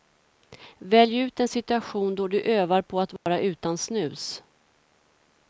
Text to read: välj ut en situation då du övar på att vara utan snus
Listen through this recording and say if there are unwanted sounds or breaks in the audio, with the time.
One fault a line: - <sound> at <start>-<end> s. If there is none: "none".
- dropout at 3.2-3.3 s